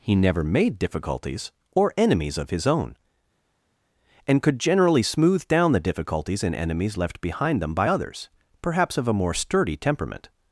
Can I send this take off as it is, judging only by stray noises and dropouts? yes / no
yes